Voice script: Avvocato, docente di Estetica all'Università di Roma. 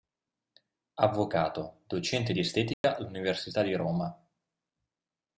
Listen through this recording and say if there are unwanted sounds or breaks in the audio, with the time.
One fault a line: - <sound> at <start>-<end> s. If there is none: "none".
- dropout at 2.7-2.8 s